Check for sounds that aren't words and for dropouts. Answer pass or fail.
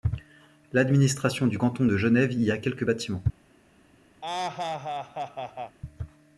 fail